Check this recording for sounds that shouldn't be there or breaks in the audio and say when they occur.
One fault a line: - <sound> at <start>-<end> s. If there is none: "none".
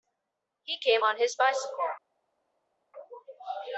none